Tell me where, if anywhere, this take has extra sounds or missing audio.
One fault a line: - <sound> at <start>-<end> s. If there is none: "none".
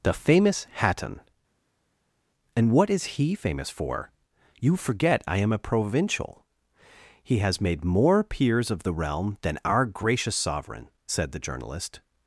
none